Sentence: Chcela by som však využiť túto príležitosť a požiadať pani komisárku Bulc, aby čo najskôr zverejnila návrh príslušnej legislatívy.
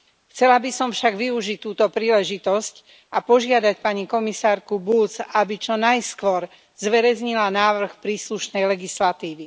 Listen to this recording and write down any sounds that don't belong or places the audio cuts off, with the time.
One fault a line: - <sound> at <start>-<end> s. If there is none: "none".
none